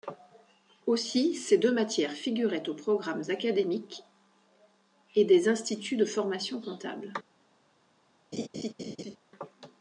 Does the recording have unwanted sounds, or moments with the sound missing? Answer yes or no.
yes